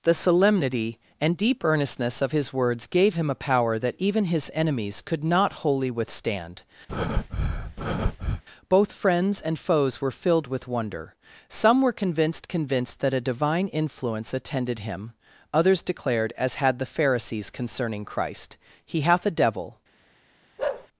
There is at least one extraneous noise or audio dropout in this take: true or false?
true